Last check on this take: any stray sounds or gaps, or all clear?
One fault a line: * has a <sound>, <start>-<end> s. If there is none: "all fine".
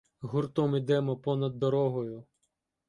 all fine